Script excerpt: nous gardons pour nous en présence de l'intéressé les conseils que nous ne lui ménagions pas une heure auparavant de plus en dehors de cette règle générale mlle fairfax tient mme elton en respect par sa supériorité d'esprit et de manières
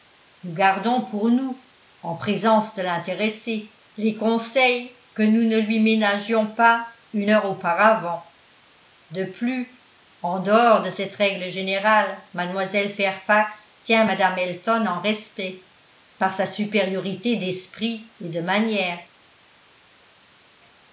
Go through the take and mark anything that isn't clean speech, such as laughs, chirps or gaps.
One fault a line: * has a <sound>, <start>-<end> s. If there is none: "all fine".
all fine